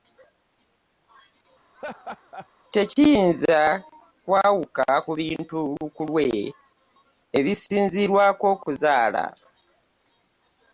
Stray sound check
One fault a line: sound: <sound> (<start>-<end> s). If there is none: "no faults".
sound: laugh (1.7-2.5 s)